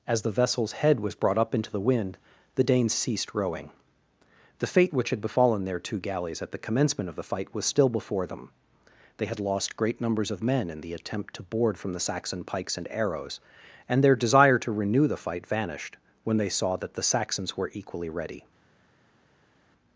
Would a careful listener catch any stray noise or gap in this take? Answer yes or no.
no